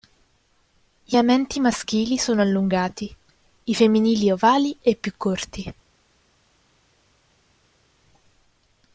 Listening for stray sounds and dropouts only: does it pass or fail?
pass